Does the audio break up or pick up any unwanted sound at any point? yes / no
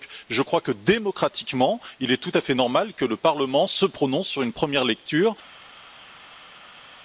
no